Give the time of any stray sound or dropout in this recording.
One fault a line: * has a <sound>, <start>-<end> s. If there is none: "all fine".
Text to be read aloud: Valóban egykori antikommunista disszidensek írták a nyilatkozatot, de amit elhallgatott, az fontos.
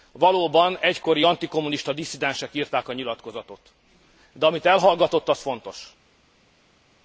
all fine